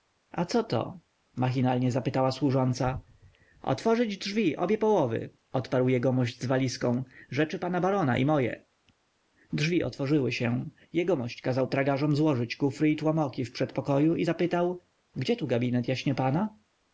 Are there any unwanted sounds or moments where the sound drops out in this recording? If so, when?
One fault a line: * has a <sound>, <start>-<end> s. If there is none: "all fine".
all fine